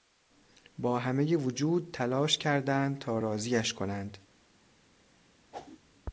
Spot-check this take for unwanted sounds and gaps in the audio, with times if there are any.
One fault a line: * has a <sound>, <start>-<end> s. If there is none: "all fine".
* has a whoosh, 5.5-5.8 s